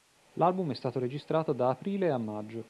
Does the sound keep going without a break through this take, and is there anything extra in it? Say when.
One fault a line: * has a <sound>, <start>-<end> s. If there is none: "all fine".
all fine